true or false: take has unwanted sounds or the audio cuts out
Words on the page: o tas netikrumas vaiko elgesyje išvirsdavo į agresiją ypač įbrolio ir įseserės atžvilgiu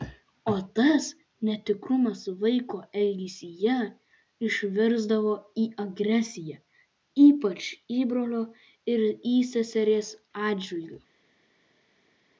false